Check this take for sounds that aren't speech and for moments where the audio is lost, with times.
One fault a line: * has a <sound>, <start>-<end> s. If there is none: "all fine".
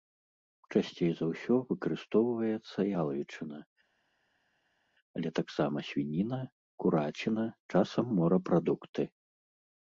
all fine